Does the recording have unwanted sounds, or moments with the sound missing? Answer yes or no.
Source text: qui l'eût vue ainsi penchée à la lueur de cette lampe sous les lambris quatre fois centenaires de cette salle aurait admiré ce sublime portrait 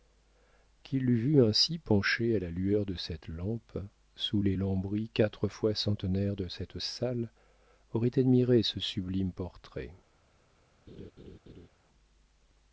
yes